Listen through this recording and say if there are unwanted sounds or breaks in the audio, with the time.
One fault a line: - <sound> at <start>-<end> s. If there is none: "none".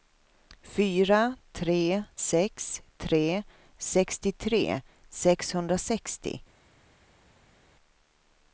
none